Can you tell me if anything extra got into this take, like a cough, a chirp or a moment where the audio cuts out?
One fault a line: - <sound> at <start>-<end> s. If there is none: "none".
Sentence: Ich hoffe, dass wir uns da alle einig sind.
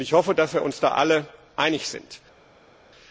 none